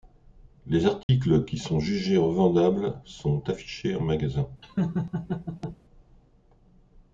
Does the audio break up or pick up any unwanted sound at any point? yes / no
yes